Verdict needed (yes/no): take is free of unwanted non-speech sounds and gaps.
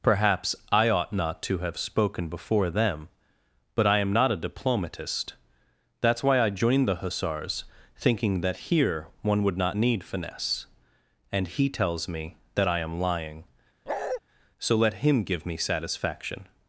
no